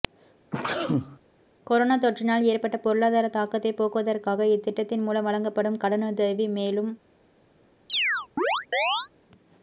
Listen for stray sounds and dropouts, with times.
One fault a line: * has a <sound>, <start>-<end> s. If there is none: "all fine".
* has a sneeze, 0.5-1.2 s
* has a chirp, 7.9-9.1 s